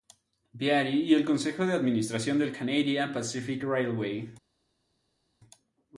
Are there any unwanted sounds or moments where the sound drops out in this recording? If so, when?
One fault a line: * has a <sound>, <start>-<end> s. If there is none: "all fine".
all fine